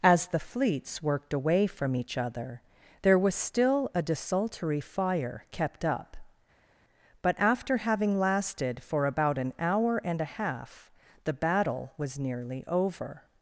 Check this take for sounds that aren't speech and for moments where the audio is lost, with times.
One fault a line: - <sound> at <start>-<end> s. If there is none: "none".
none